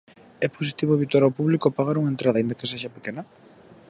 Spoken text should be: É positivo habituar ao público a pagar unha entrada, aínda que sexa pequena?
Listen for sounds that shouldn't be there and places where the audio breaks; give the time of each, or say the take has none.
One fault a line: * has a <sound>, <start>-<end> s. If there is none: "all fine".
all fine